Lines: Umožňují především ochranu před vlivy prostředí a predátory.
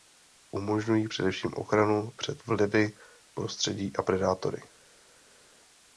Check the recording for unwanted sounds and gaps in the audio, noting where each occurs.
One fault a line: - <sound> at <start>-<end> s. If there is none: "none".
none